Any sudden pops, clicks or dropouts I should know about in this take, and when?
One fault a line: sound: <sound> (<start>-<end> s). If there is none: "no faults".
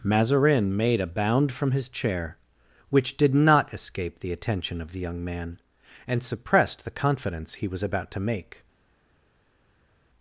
no faults